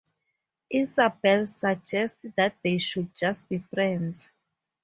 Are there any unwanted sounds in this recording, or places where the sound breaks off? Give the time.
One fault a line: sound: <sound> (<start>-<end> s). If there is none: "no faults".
no faults